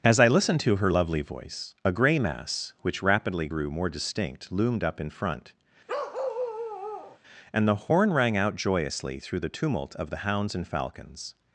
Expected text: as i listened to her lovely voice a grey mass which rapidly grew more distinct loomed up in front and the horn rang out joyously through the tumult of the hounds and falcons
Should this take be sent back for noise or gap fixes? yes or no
yes